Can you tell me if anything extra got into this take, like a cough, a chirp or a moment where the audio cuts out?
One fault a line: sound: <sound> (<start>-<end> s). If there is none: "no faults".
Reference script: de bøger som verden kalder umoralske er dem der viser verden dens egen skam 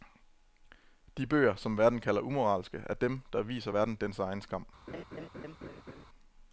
sound: laugh (4.9-6.1 s)